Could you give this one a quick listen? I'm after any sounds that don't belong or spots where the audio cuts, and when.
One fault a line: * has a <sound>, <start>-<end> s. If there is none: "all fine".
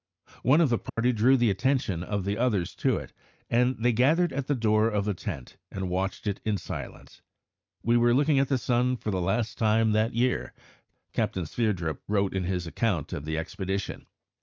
* has a dropout, 0.9-1.0 s